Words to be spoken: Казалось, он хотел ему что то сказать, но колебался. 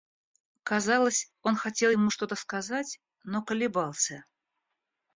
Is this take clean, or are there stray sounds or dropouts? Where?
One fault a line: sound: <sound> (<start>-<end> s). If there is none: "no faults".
no faults